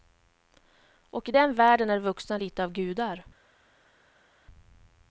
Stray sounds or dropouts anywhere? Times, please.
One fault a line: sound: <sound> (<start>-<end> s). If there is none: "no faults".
no faults